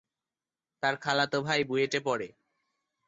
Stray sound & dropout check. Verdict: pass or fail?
pass